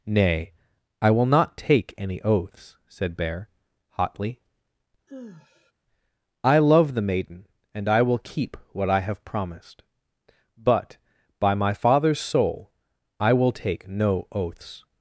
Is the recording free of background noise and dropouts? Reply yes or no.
no